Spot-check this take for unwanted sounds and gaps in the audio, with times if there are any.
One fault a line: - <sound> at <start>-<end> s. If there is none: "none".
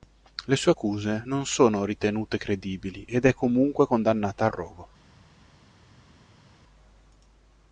none